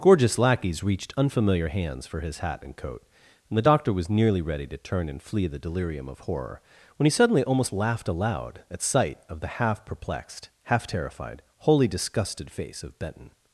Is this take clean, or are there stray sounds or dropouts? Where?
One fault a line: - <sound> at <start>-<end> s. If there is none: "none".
none